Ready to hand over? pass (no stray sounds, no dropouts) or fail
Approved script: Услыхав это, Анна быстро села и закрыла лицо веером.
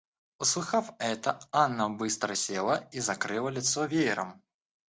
pass